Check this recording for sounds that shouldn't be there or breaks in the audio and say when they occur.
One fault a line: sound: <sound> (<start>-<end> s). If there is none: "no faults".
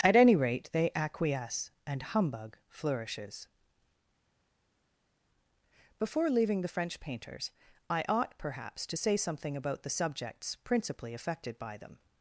no faults